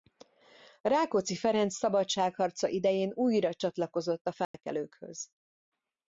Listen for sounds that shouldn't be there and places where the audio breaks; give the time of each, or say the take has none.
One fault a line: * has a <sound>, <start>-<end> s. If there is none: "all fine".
* has a dropout, 4.4-4.5 s